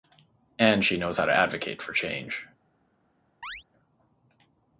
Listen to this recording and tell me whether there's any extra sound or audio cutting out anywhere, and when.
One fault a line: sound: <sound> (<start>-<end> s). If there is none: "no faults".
sound: chirp (3.4-3.6 s)